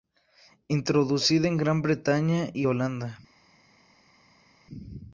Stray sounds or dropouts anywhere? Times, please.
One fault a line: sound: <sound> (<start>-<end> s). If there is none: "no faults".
no faults